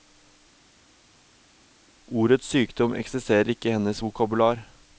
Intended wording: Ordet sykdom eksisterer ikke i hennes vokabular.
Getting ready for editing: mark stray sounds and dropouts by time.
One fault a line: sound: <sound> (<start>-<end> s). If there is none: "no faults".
no faults